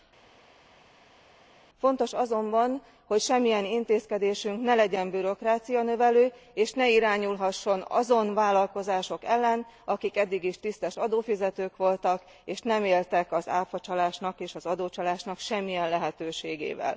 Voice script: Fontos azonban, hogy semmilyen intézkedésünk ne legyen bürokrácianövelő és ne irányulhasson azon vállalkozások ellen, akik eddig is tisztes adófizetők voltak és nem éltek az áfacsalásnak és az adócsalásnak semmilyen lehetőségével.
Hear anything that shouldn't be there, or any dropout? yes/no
no